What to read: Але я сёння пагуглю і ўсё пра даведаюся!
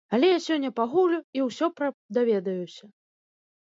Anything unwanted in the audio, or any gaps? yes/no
no